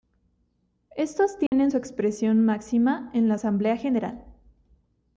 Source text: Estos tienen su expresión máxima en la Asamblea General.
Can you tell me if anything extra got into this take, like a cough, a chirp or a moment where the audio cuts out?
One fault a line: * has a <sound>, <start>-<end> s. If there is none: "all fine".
* has a dropout, 1.5-1.5 s